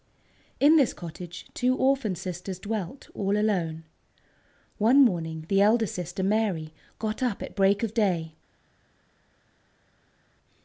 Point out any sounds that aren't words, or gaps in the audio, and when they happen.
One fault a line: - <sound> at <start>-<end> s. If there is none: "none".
none